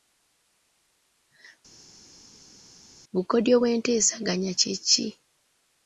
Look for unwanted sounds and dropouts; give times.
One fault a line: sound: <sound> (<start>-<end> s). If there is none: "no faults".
no faults